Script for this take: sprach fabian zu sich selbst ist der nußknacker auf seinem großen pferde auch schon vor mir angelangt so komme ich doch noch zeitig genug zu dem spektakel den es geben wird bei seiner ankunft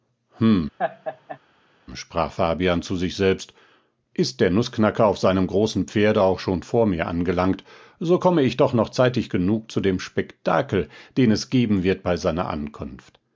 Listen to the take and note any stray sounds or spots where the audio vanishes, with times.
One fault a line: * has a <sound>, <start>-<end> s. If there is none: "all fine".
* has a laugh, 0.8-1.4 s